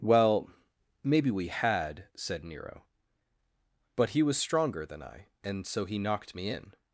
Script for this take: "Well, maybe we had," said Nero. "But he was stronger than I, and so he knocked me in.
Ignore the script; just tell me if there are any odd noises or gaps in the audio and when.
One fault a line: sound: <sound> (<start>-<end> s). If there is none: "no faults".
no faults